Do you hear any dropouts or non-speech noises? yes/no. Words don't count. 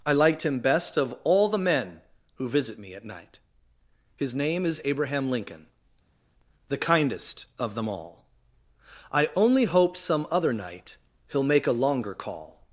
no